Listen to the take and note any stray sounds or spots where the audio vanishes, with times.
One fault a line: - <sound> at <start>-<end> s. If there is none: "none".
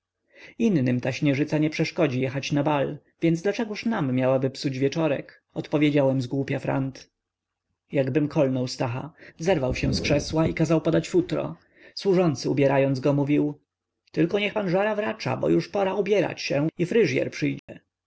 - dropout at 17.6-17.7 s